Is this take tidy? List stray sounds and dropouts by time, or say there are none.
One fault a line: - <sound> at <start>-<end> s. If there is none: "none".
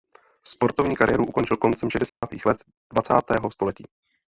- dropout at 2.1-2.2 s